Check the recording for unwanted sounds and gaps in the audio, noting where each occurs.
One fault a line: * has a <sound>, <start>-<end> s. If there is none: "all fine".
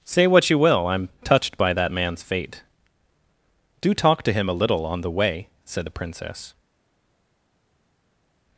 all fine